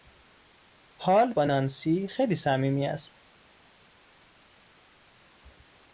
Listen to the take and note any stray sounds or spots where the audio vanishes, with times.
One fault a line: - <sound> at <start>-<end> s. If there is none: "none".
none